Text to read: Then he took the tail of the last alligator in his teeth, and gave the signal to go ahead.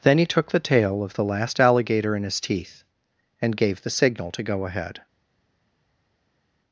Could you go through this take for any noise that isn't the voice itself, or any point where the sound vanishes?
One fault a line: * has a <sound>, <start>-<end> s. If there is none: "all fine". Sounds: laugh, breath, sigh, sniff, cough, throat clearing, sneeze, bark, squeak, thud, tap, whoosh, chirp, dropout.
all fine